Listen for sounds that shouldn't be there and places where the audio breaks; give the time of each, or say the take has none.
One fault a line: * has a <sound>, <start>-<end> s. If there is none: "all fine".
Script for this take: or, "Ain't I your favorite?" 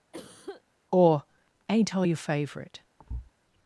* has a cough, 0.1-0.6 s
* has a thud, 3.0-3.3 s